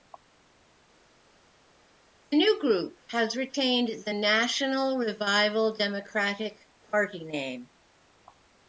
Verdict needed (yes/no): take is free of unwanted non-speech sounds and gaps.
yes